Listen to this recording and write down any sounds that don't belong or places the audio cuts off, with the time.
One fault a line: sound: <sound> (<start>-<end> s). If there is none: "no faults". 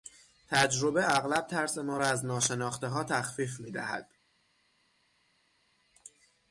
no faults